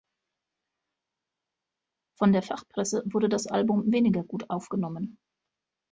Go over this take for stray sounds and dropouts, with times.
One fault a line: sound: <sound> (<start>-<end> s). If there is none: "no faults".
no faults